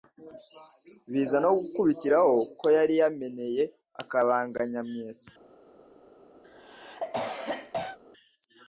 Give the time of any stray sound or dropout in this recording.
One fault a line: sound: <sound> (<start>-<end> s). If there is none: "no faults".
sound: cough (6.4-8.0 s)